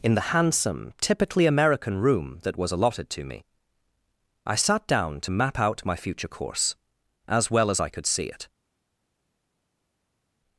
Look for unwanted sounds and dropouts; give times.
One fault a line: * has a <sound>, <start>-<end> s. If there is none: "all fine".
all fine